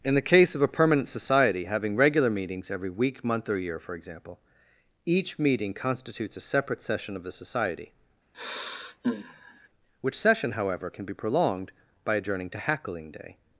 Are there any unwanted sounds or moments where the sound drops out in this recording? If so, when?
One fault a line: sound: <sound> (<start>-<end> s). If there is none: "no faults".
sound: sigh (8.3-9.7 s)